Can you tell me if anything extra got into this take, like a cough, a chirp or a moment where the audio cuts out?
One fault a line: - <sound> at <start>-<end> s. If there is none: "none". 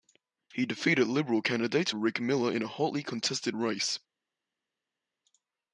none